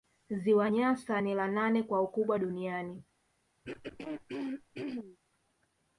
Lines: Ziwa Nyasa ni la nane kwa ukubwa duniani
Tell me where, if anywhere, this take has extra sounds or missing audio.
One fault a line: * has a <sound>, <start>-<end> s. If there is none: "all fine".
* has a throat clearing, 3.6-5.2 s